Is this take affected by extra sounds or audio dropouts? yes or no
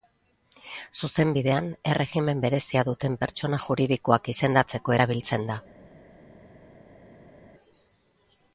no